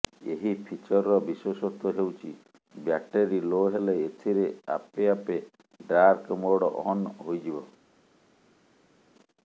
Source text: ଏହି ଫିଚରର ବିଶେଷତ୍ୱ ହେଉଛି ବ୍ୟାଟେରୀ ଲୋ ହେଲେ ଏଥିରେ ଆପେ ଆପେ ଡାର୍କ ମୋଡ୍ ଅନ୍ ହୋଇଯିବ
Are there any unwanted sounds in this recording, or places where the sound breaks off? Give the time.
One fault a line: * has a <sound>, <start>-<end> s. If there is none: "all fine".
all fine